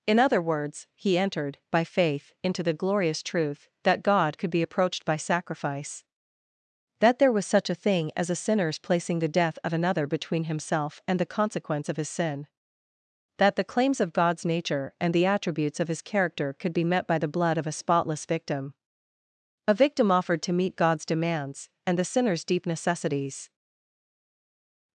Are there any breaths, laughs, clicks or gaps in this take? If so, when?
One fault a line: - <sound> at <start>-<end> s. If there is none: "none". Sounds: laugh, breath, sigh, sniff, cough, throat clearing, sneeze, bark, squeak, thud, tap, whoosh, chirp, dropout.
none